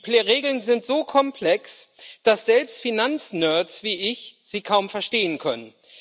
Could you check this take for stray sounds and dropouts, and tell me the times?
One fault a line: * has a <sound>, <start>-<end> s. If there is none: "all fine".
all fine